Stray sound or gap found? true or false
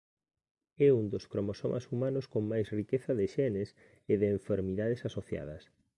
false